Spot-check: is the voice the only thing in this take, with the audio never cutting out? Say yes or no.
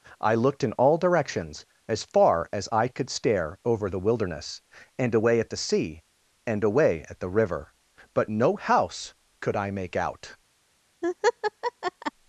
no